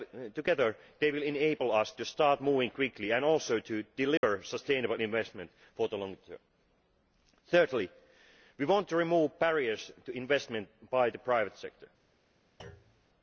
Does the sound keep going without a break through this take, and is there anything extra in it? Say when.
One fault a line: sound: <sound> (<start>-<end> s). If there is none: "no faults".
sound: dropout (4.2-4.2 s)
sound: thud (12.6-13.1 s)